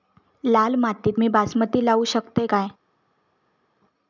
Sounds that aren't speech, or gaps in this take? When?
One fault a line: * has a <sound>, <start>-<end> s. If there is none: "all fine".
all fine